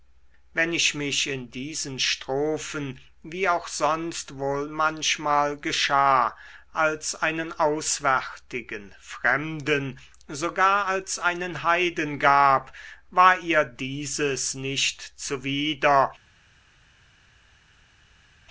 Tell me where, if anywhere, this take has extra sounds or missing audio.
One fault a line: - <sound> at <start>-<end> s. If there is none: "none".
none